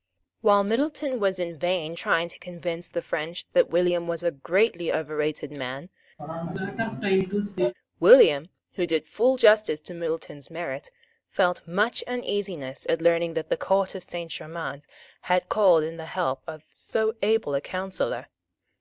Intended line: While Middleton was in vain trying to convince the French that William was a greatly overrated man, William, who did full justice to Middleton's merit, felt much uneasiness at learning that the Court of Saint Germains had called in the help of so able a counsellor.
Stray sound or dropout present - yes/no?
yes